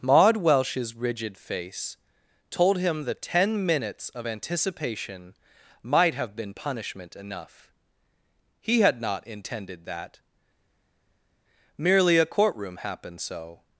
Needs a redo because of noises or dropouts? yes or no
no